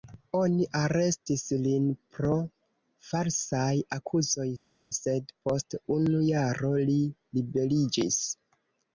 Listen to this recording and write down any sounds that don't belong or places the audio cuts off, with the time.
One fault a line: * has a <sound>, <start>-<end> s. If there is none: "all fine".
all fine